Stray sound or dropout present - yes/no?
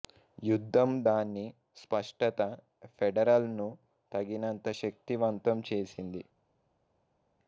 no